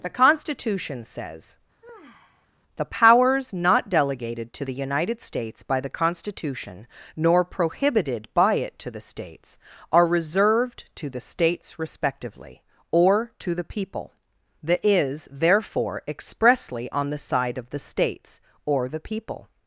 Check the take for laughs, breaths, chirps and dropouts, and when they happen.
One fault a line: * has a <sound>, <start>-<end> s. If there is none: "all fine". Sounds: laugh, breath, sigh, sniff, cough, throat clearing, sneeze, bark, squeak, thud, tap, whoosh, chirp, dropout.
* has a sigh, 1.8-2.5 s